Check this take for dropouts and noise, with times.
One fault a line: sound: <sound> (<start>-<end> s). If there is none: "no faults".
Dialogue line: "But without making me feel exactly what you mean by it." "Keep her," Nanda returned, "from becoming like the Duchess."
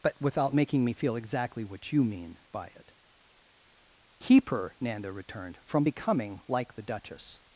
no faults